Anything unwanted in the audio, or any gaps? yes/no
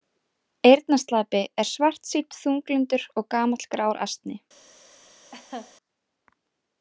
yes